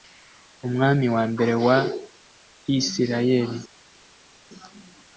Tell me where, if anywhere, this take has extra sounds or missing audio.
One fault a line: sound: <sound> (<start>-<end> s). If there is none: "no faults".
no faults